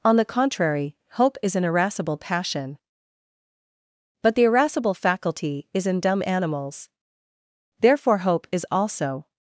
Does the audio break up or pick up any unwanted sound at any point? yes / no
no